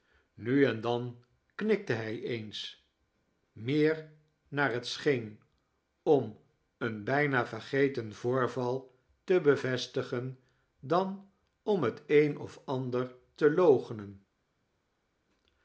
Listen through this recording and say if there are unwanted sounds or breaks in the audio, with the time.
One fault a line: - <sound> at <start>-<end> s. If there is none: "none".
none